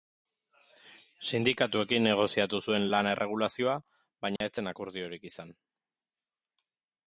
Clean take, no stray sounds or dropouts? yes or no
no